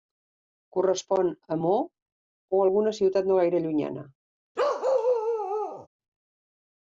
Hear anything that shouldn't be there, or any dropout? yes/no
yes